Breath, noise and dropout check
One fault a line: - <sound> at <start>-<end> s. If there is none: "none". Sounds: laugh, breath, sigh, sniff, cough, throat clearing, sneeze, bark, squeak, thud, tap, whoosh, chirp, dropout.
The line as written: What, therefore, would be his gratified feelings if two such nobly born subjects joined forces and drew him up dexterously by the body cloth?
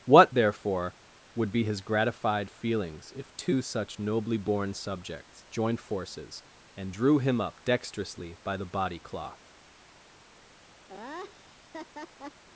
- laugh at 10.9-12.4 s